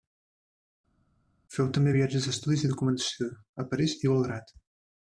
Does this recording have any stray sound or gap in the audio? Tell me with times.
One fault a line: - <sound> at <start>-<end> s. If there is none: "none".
none